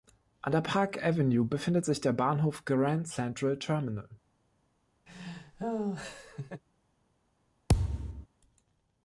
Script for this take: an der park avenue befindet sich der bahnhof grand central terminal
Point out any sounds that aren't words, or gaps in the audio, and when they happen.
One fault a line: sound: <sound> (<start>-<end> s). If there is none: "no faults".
sound: laugh (5.1-6.6 s)
sound: thud (7.7-8.3 s)